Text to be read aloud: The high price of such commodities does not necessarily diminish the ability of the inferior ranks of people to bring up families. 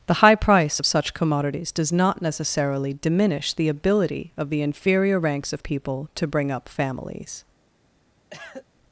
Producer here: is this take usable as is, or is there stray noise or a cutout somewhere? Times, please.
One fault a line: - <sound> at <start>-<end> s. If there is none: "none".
- cough at 8.3-8.7 s